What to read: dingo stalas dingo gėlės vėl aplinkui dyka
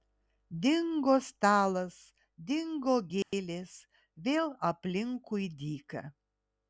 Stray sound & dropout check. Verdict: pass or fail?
fail